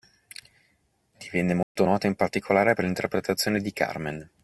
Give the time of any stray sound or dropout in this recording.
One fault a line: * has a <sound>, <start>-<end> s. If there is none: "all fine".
* has a dropout, 1.6-1.8 s